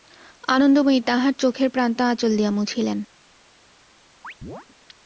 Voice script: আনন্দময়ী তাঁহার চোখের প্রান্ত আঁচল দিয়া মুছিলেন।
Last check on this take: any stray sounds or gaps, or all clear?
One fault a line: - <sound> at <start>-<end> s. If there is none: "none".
- chirp at 4.2-4.7 s